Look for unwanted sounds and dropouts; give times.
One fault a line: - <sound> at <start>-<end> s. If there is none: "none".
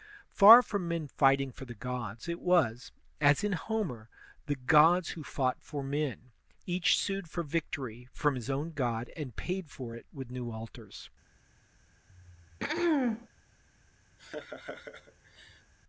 - throat clearing at 12.1-13.3 s
- laugh at 14.2-15.7 s